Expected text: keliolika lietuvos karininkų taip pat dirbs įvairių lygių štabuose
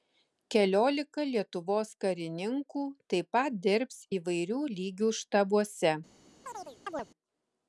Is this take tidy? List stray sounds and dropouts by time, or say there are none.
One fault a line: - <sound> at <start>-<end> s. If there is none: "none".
- chirp at 6.4-7.1 s